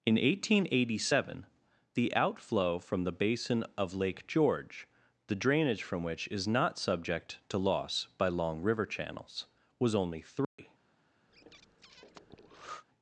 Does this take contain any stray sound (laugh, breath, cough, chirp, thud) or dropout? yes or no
yes